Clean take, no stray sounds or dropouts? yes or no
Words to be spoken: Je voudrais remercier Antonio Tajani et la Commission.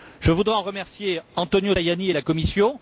yes